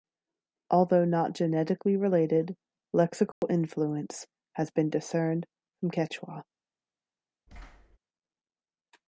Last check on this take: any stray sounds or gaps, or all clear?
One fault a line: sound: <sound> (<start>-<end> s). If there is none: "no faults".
sound: dropout (3.3-3.4 s)
sound: thud (7.5-8.0 s)